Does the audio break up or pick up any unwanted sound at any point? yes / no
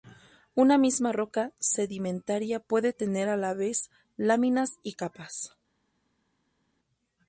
no